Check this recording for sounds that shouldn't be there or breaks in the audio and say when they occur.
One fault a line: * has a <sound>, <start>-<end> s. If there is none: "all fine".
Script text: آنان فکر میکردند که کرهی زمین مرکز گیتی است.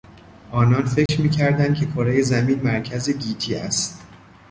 * has a dropout, 1.1-1.1 s